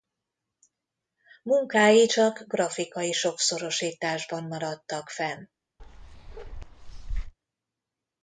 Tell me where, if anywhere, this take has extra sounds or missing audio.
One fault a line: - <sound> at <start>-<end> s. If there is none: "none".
- bark at 5.8-7.3 s